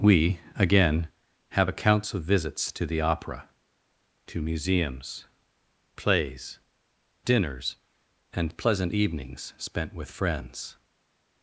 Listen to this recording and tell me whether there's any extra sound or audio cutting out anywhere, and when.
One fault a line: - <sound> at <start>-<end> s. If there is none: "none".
none